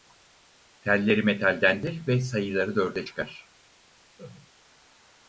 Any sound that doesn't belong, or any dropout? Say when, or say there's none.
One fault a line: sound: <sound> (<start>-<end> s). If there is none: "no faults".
sound: laugh (4.2-4.5 s)